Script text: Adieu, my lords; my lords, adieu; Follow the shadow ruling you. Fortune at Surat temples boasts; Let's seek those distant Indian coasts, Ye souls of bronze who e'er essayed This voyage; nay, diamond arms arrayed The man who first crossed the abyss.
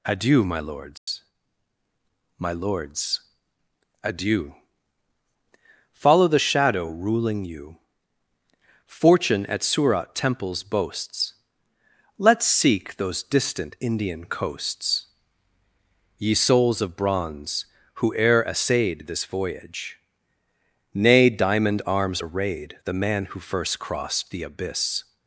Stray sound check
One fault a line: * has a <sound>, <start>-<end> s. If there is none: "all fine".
* has a dropout, 1.0-1.1 s